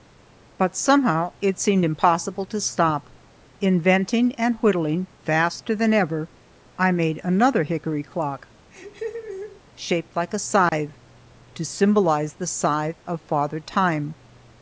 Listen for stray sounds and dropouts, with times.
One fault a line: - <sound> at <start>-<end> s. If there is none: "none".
- laugh at 8.7-9.6 s
- dropout at 10.7-10.7 s